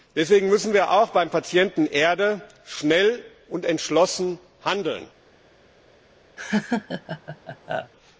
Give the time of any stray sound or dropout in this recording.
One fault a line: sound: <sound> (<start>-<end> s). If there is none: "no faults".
sound: laugh (6.4-7.9 s)